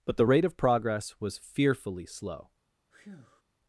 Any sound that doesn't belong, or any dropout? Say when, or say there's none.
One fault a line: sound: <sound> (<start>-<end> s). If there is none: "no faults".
sound: breath (2.9-3.4 s)